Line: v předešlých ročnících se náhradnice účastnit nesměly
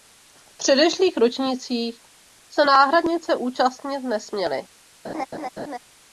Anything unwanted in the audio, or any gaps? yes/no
yes